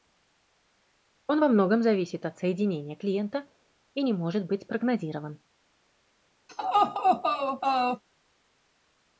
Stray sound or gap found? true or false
true